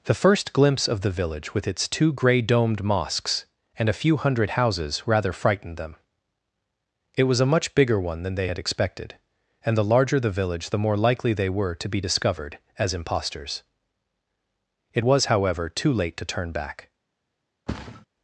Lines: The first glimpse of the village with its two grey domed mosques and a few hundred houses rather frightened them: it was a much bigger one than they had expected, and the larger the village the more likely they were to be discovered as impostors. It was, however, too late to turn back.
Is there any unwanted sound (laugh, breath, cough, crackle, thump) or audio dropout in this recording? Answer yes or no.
yes